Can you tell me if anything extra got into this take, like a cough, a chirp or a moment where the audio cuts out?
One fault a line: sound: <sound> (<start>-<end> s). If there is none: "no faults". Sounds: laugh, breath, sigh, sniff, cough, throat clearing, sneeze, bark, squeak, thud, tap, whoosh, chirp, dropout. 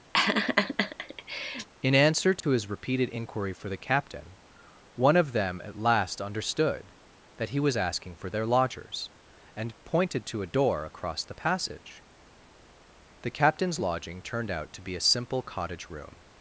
sound: laugh (0.1-1.7 s)
sound: dropout (2.4-2.4 s)